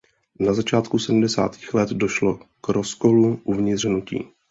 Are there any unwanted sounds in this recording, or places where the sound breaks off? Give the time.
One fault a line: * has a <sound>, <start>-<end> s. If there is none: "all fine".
all fine